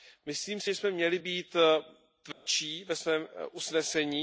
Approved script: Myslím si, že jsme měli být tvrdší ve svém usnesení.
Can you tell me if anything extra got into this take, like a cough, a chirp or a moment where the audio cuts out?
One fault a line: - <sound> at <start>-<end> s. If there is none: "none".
- dropout at 2.3-2.5 s